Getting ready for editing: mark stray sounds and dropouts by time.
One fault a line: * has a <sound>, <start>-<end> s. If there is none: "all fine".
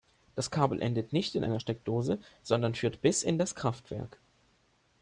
all fine